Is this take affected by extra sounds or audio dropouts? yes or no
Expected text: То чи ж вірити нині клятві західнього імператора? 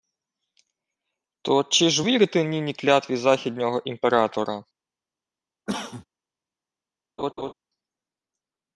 yes